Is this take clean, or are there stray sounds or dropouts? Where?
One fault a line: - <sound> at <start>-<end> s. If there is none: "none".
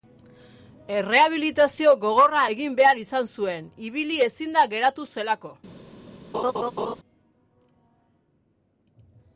- laugh at 6.3-7.0 s